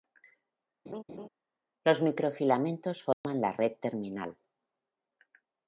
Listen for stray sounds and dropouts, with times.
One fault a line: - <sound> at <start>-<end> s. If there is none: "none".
- laugh at 0.9-1.3 s
- dropout at 3.1-3.2 s